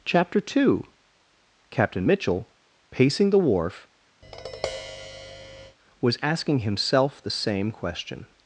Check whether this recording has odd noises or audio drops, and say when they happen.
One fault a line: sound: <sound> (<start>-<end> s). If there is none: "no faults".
sound: tap (4.2-5.8 s)